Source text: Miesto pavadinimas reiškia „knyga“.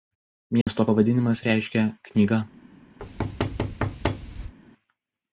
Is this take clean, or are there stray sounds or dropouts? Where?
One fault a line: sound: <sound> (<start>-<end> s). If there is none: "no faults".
sound: dropout (0.6-0.7 s)
sound: thud (3.0-4.5 s)